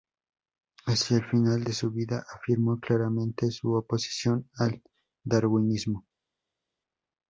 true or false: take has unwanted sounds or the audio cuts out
false